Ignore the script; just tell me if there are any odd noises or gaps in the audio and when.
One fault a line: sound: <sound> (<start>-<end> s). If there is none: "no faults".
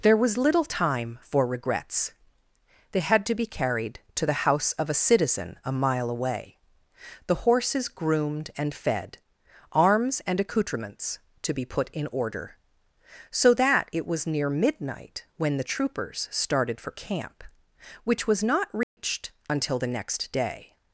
sound: dropout (18.8-19.0 s)